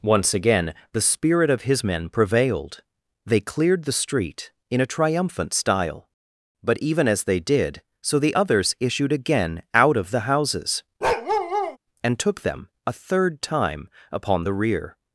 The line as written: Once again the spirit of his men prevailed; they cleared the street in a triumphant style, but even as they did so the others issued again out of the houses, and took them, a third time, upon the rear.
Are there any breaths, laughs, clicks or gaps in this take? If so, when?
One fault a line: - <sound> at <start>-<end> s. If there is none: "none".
- bark at 11.0-11.8 s